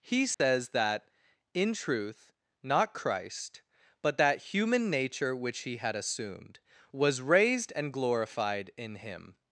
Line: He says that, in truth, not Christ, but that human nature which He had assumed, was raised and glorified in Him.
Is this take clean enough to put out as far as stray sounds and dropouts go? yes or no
no